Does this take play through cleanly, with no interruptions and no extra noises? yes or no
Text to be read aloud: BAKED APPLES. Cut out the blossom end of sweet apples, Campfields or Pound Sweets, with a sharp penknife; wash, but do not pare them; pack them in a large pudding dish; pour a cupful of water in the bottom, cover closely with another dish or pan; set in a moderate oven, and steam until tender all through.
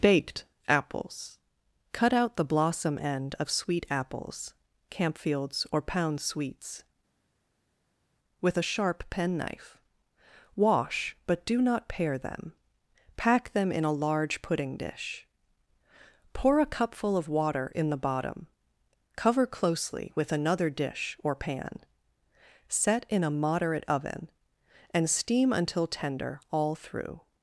yes